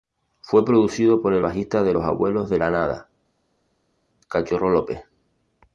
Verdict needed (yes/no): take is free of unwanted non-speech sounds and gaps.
yes